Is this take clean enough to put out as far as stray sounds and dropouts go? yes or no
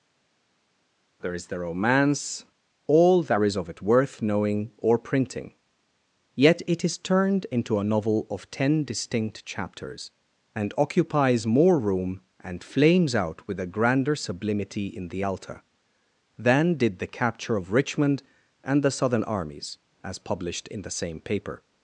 yes